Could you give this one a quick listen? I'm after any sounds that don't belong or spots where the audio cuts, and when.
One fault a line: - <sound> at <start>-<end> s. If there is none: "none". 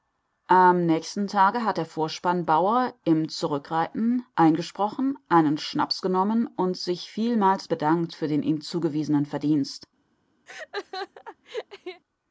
- laugh at 10.5-12.0 s